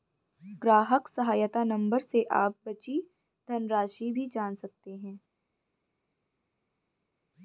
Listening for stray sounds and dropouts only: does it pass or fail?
pass